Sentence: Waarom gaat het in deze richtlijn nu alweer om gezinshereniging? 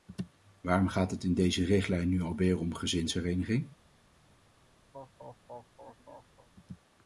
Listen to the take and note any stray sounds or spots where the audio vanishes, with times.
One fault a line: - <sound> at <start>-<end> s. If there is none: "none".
- laugh at 4.9-6.5 s